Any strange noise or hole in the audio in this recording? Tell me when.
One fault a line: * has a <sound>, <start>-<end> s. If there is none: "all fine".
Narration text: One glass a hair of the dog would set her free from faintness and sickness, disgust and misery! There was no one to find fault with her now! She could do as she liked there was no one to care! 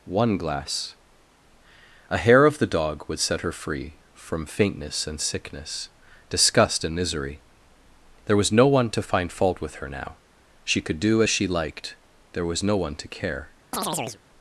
* has a chirp, 13.7-14.2 s